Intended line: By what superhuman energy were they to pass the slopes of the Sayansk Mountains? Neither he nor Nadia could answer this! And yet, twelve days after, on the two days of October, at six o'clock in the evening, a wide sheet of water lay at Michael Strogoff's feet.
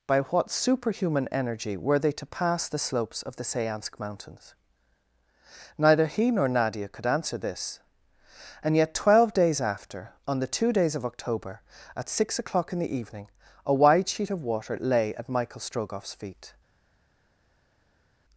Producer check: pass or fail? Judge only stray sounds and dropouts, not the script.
pass